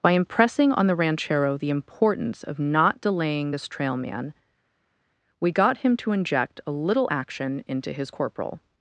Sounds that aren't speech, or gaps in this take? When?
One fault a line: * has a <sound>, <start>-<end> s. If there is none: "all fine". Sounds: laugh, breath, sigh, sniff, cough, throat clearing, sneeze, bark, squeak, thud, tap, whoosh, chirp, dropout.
all fine